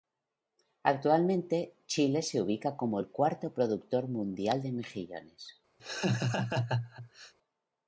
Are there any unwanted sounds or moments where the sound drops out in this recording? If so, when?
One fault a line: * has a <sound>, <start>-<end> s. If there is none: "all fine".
* has a laugh, 5.8-7.3 s